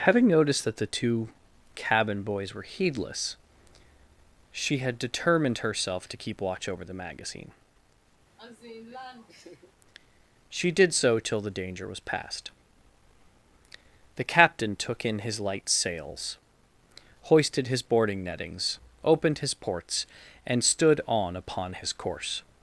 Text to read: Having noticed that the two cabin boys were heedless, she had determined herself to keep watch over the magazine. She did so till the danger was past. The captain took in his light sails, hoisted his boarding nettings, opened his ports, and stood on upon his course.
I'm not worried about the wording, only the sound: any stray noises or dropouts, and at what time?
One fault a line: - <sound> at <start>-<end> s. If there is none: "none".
- laugh at 8.4-9.7 s